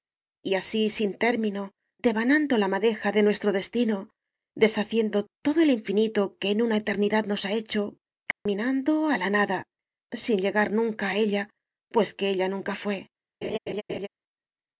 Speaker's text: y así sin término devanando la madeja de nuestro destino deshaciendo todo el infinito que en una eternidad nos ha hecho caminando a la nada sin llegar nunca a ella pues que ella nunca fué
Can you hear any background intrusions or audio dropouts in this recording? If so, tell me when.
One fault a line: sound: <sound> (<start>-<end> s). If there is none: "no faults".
sound: dropout (8.3-8.5 s)
sound: laugh (13.4-14.1 s)